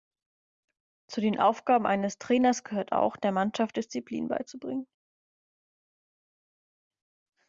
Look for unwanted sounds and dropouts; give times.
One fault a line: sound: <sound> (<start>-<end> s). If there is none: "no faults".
no faults